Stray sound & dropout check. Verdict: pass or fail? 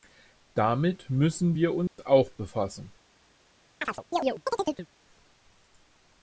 fail